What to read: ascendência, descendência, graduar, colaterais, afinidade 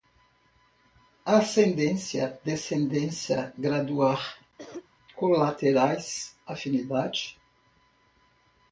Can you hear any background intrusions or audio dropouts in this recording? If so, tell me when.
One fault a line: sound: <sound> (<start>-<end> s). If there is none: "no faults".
sound: cough (4.6-4.9 s)